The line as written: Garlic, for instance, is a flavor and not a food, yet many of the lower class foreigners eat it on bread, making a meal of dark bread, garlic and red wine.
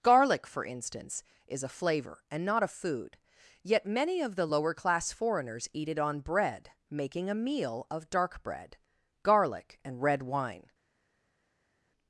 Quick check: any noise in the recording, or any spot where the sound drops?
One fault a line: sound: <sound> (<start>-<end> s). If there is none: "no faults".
no faults